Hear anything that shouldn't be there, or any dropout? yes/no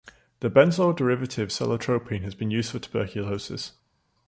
no